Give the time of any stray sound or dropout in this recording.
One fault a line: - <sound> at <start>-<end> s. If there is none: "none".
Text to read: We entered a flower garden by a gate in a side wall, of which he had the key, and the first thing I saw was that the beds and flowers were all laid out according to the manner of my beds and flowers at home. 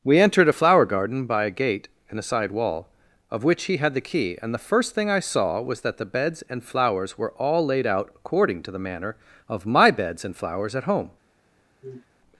- sniff at 11.8-12.1 s